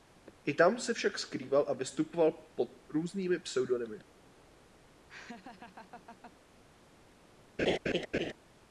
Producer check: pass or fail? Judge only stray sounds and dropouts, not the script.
fail